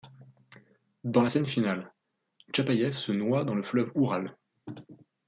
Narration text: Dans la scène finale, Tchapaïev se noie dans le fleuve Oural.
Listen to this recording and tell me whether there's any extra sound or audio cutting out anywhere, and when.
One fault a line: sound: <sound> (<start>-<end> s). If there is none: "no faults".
no faults